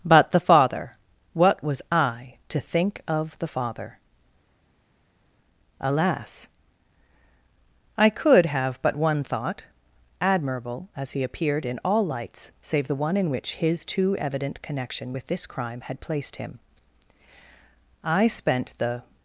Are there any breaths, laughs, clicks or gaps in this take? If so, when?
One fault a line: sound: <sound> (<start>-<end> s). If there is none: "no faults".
no faults